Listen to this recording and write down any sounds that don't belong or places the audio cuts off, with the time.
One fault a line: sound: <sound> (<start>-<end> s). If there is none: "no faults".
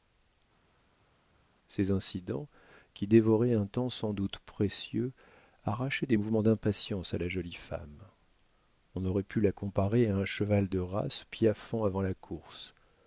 no faults